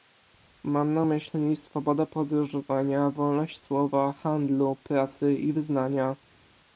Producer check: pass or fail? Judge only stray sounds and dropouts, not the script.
pass